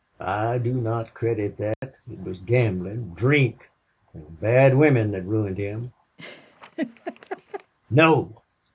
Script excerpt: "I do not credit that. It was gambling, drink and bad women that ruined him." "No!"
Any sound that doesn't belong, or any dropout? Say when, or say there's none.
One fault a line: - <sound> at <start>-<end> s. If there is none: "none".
- dropout at 1.7-1.8 s
- laugh at 6.2-7.7 s